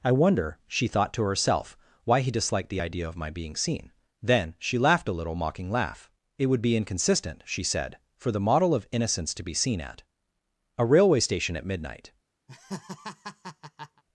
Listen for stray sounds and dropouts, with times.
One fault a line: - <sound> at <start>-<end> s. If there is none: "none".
- laugh at 12.5-14.0 s